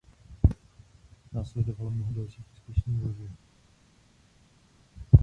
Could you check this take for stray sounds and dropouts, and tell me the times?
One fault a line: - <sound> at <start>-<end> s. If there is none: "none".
none